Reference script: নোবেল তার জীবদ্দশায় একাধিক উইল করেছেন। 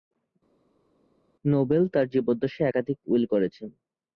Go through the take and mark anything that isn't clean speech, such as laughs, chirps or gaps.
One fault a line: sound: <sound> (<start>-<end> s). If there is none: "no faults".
no faults